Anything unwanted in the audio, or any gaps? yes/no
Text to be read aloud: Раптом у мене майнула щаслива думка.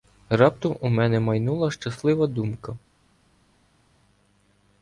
no